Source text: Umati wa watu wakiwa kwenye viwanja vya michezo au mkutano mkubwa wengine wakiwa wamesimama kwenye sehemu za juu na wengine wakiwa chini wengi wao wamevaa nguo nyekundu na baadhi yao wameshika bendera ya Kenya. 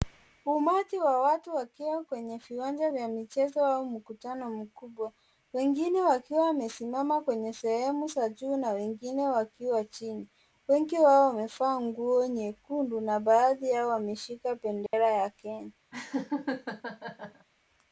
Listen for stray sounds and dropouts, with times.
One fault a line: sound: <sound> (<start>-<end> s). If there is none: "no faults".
sound: dropout (14.9-14.9 s)
sound: laugh (15.9-17.5 s)